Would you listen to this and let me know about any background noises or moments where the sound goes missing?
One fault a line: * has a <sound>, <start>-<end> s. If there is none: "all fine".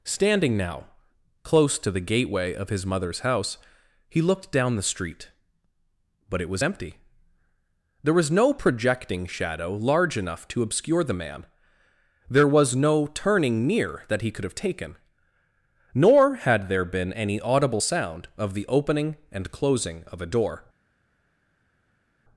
all fine